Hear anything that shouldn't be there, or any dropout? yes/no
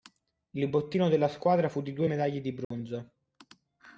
yes